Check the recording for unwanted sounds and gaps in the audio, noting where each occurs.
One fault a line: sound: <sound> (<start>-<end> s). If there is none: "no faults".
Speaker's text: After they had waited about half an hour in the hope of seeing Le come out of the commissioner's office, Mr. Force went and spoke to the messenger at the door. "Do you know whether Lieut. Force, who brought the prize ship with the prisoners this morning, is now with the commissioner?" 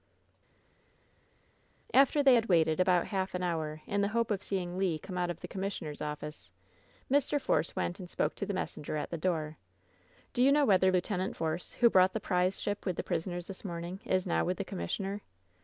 no faults